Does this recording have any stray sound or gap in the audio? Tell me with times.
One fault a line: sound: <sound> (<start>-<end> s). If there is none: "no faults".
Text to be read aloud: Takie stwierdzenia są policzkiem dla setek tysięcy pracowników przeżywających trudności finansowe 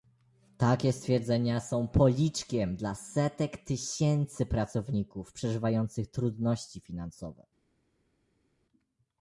no faults